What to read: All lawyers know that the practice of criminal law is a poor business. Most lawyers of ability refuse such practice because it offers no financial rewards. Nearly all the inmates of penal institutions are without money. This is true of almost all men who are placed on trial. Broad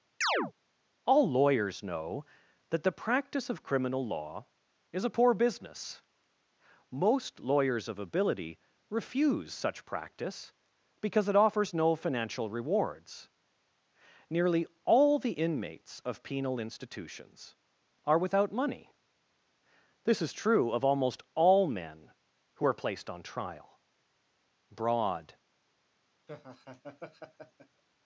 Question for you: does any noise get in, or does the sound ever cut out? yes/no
yes